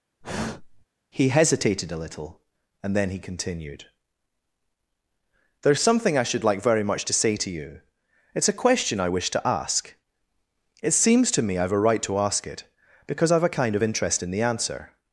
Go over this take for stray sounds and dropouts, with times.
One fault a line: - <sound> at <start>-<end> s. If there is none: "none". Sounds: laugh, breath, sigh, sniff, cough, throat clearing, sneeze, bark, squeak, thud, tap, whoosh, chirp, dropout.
- sigh at 0.2-0.8 s